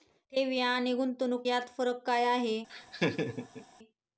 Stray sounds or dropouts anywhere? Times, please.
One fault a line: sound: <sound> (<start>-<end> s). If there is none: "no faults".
sound: laugh (2.7-3.7 s)